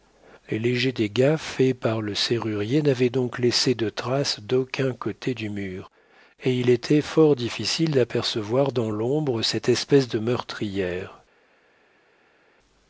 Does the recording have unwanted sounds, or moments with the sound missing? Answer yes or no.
no